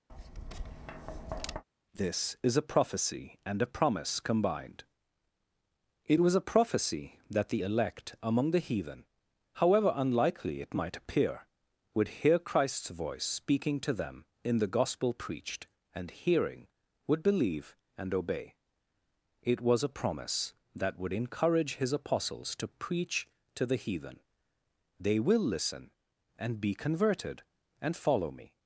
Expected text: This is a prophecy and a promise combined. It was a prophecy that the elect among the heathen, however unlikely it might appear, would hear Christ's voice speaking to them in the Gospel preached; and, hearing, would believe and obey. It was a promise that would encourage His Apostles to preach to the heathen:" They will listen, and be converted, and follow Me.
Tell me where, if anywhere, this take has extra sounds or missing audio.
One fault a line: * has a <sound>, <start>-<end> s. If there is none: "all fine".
* has a tap, 0.1-1.6 s